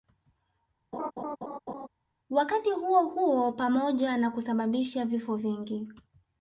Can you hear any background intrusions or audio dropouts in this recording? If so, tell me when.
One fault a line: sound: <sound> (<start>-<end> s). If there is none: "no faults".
sound: laugh (0.9-1.9 s)